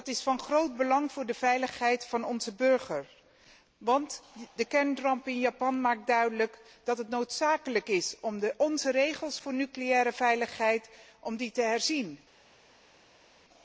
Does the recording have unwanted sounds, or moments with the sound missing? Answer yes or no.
no